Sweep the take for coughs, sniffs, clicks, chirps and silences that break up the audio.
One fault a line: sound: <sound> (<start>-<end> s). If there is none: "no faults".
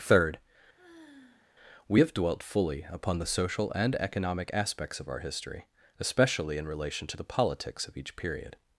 sound: sigh (0.8-1.5 s)